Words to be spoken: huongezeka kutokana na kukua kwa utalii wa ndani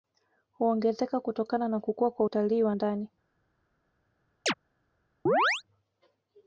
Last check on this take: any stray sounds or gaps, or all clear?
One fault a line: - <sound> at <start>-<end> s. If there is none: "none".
- chirp at 4.5-4.5 s
- chirp at 5.3-5.6 s